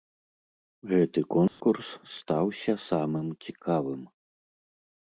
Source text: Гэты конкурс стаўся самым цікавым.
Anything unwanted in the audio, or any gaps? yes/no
yes